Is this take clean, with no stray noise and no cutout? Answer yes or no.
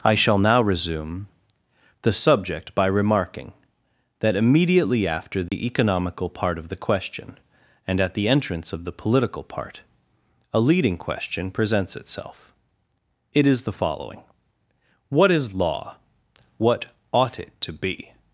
no